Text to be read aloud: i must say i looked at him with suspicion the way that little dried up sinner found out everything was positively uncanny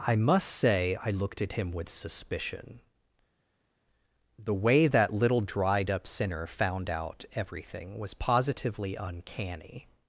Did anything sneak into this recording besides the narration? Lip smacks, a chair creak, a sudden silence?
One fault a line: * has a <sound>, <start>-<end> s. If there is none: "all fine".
all fine